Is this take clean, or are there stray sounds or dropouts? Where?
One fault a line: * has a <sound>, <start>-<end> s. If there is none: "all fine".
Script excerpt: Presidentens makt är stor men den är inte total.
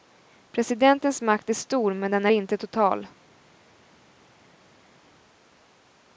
all fine